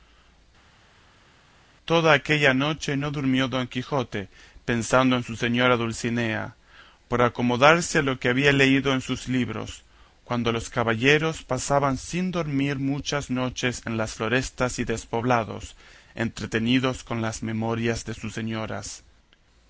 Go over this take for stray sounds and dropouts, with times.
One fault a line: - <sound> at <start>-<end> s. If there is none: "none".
none